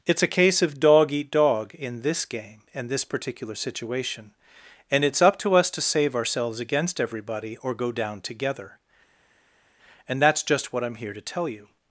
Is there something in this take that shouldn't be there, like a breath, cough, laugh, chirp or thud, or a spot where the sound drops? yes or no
no